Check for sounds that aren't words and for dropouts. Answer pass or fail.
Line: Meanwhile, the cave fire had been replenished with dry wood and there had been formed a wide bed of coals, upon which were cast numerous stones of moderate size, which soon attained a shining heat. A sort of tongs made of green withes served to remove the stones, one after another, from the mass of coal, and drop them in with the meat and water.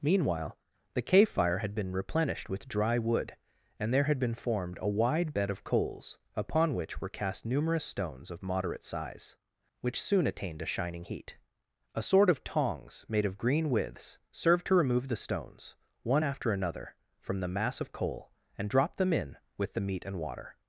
pass